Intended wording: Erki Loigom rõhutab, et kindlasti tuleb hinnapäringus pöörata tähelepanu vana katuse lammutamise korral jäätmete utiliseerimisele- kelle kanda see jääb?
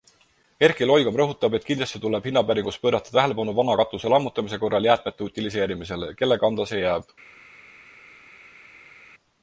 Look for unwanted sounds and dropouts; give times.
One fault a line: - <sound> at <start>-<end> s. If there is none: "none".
none